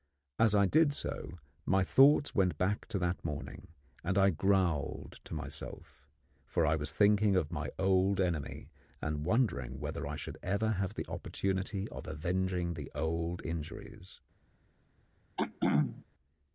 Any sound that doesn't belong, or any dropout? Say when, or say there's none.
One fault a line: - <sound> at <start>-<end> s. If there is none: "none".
- throat clearing at 15.4-16.0 s